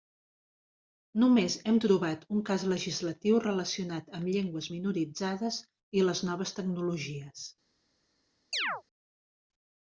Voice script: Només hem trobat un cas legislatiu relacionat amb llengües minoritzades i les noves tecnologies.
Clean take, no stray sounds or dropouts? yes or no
no